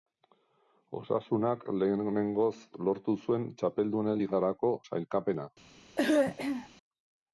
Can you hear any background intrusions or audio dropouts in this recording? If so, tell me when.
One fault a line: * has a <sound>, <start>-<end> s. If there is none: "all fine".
* has a throat clearing, 6.0-6.7 s